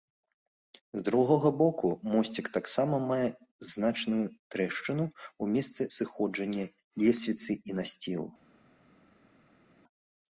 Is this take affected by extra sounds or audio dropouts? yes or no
no